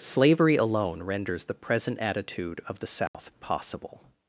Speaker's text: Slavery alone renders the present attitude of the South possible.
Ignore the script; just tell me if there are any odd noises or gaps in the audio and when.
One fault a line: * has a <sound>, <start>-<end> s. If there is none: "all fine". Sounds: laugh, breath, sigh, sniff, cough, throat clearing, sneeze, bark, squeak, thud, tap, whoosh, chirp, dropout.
* has a dropout, 3.1-3.1 s